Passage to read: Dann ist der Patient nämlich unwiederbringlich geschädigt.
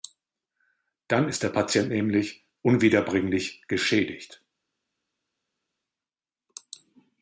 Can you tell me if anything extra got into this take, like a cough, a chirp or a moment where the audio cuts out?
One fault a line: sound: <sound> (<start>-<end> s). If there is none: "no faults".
no faults